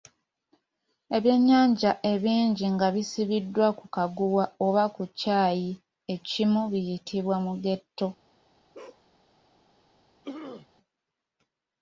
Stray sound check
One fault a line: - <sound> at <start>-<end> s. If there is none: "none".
- bark at 8.7-9.1 s
- throat clearing at 10.2-10.7 s